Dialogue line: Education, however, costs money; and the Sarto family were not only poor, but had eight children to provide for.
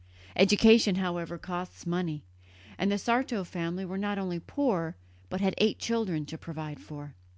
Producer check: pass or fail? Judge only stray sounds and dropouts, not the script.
pass